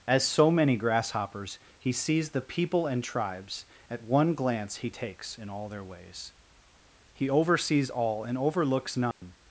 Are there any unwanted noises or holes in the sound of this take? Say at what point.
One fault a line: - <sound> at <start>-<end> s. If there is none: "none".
- dropout at 9.1-9.2 s